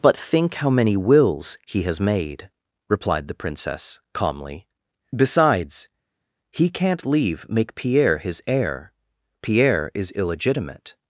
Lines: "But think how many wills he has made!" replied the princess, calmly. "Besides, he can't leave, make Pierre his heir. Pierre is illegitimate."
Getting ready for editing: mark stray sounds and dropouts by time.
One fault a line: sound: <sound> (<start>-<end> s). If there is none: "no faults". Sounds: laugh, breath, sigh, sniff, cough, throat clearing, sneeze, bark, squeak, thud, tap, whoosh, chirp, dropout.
no faults